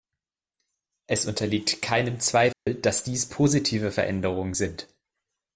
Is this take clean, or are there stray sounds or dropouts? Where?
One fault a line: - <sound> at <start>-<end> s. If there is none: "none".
- dropout at 2.5-2.7 s